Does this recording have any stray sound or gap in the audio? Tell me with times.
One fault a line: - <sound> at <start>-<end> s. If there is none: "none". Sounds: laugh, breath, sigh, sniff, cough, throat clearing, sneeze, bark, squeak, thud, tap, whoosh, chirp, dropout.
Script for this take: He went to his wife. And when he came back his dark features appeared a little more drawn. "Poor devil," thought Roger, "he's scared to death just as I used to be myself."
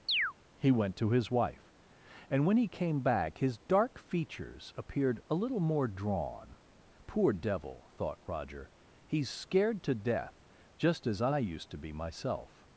- chirp at 0.1-0.3 s